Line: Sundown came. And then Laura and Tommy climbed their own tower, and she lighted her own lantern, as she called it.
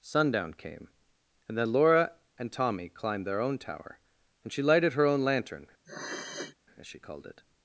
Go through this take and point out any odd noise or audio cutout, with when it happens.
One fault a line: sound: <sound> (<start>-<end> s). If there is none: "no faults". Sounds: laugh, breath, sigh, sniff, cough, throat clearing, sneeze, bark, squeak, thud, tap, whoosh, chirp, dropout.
sound: sniff (5.8-6.6 s)